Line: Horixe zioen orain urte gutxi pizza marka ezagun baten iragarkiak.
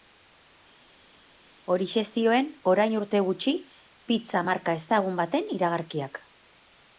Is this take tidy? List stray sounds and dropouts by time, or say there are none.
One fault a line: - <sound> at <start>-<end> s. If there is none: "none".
none